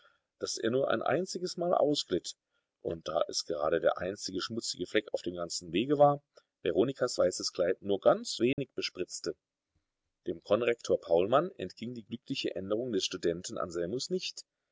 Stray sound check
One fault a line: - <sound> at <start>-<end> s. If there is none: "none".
- dropout at 8.5-8.6 s